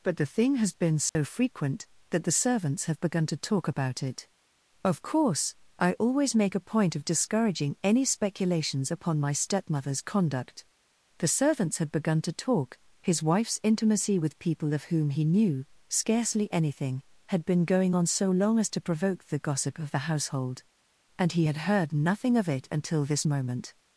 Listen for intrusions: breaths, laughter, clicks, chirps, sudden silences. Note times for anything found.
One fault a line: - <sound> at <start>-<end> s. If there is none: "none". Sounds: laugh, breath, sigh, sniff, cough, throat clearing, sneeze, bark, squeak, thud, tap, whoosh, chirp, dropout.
- dropout at 1.1-1.1 s